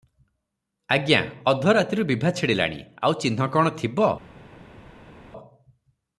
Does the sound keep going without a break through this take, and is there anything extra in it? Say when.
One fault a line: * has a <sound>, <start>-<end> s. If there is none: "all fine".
all fine